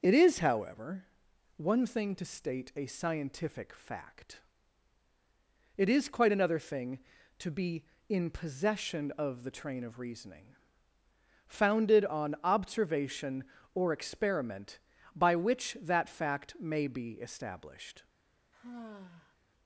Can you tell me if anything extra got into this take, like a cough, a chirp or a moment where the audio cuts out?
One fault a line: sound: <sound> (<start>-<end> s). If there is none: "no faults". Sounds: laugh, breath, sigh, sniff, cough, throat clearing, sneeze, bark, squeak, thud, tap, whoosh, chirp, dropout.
sound: sigh (18.5-19.4 s)